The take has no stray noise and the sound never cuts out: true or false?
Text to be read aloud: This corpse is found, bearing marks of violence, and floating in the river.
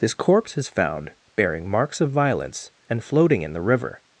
true